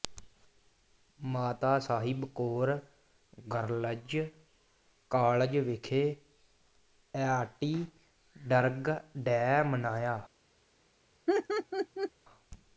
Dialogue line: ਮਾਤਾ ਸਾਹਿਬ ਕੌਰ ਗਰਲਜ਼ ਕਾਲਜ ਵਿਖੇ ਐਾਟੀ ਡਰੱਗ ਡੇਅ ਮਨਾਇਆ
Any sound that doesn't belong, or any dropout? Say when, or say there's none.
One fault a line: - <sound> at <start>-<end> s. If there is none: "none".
- laugh at 11.3-12.1 s